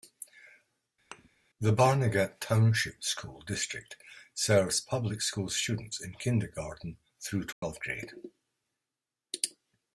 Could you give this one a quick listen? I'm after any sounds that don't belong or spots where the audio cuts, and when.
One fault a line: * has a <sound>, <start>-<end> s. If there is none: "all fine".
* has a thud, 1.1-1.3 s
* has a dropout, 7.5-7.6 s